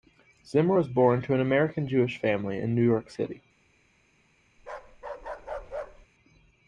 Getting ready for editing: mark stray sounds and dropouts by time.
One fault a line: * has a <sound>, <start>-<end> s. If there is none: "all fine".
* has a bark, 4.6-6.1 s